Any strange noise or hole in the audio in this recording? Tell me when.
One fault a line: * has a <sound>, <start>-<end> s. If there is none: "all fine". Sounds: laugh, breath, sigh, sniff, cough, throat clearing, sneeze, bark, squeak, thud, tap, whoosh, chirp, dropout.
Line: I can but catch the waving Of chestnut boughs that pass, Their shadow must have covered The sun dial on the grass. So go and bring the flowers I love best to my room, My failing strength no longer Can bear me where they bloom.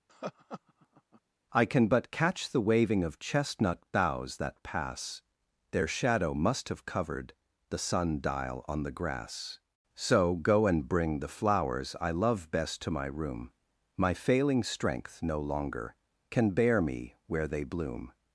* has a laugh, 0.1-1.2 s